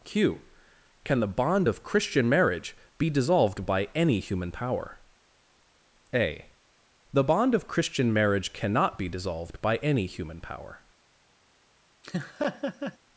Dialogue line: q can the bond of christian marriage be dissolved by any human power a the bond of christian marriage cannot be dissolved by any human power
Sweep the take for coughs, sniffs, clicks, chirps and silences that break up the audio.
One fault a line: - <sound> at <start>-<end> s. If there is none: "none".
- laugh at 12.0-13.0 s